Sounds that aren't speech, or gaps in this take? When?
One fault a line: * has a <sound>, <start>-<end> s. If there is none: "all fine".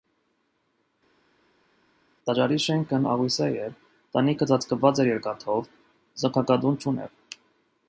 all fine